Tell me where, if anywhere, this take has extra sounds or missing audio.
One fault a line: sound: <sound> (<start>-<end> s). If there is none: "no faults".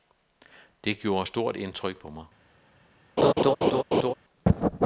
sound: laugh (3.2-4.1 s)